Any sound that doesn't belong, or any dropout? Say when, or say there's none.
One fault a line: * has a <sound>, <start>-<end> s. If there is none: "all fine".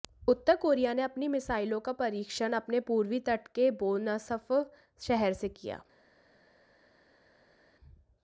all fine